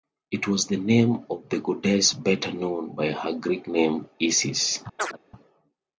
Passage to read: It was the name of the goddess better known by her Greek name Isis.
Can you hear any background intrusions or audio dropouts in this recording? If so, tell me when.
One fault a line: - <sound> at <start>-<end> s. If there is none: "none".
- chirp at 5.0-5.2 s